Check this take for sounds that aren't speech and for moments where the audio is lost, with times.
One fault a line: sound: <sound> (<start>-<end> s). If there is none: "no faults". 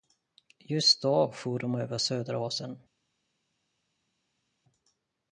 no faults